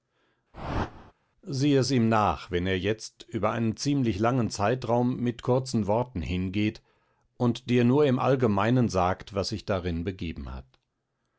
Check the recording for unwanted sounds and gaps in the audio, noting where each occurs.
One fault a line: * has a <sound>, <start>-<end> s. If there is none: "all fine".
* has a whoosh, 0.5-1.1 s